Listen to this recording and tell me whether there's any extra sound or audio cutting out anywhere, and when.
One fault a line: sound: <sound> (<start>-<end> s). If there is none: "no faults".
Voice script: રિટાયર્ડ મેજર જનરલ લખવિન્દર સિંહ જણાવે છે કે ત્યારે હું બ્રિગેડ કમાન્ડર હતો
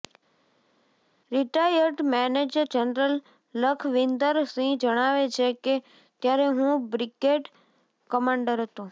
no faults